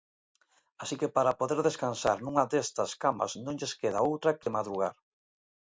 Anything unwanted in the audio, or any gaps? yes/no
yes